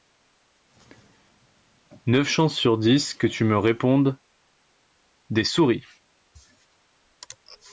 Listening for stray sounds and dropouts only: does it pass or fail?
pass